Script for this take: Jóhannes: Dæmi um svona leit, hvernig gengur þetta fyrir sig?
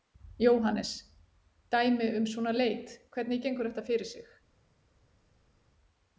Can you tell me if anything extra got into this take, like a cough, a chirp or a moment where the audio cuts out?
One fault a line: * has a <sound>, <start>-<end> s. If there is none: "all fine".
all fine